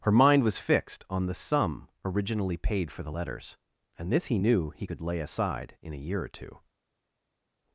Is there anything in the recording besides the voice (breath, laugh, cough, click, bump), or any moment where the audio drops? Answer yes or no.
no